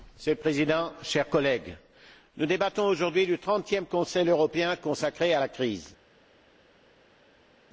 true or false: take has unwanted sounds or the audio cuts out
false